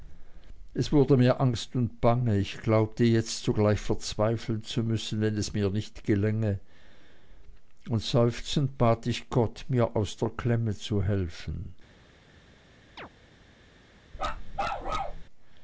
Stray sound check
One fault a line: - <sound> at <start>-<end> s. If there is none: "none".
- chirp at 13.0-13.1 s
- bark at 14.1-15.2 s